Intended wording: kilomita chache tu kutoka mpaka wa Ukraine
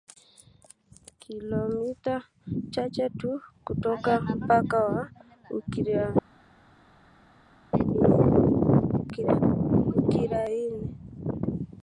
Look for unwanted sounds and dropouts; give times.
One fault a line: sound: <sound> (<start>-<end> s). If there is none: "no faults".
no faults